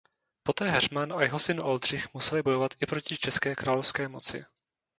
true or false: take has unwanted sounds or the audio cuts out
false